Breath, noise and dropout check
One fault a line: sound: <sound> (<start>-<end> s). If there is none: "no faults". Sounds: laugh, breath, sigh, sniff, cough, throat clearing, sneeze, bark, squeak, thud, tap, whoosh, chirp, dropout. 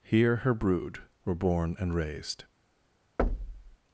sound: thud (3.2-3.8 s)